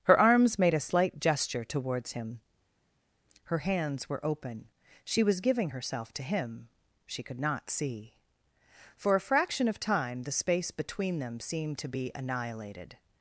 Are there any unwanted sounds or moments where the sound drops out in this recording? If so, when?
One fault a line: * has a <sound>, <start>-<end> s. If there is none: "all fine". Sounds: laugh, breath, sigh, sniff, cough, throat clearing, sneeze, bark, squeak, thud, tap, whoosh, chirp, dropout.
all fine